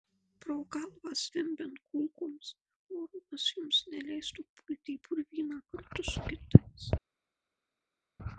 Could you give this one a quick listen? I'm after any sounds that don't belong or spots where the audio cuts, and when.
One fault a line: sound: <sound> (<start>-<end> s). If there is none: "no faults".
no faults